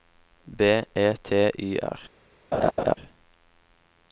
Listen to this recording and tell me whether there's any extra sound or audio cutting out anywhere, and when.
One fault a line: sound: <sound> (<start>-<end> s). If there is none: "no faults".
sound: laugh (2.5-3.0 s)